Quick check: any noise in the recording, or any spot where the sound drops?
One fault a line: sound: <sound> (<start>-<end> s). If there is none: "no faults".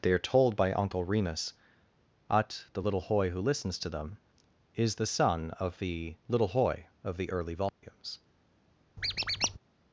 sound: dropout (7.7-7.8 s)
sound: squeak (9.0-9.6 s)